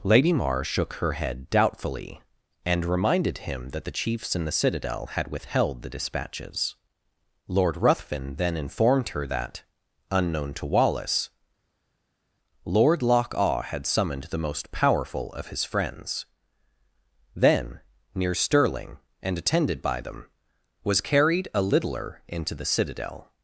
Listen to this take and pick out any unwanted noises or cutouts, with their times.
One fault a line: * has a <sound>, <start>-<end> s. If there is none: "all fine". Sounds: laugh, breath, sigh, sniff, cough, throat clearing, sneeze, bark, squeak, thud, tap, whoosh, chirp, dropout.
all fine